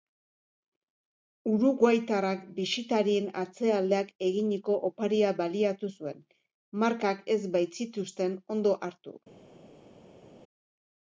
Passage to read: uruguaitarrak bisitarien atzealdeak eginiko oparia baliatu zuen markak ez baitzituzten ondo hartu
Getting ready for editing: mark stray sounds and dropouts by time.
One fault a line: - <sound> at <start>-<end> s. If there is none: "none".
none